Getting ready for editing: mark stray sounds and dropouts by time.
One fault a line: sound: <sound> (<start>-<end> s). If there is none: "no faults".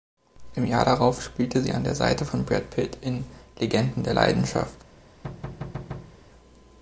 sound: thud (5.2-6.2 s)